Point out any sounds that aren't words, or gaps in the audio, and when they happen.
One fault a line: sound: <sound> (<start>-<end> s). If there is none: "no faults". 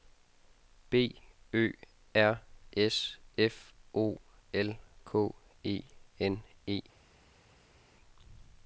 no faults